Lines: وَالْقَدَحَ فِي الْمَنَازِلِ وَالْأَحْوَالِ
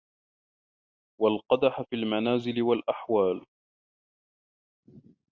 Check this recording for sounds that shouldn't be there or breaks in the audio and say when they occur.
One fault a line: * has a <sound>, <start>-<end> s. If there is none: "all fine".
all fine